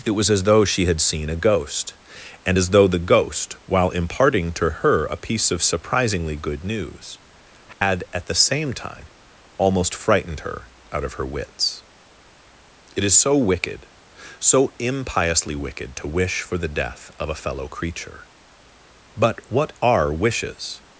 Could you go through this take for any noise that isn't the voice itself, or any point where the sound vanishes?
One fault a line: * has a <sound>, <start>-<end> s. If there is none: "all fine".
* has a dropout, 7.7-7.8 s